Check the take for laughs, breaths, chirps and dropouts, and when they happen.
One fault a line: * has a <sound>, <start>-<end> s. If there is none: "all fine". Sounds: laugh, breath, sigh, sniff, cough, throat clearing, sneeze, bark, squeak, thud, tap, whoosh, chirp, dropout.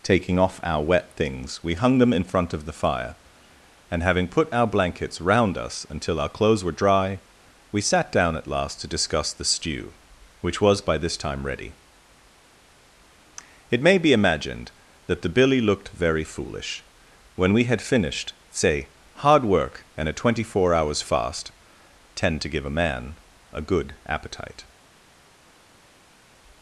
all fine